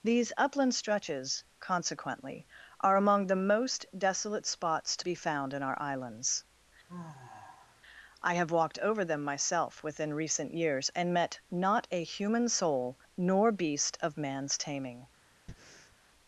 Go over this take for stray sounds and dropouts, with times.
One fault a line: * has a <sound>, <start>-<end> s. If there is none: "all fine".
* has a sigh, 6.9-7.8 s
* has a breath, 15.5-16.0 s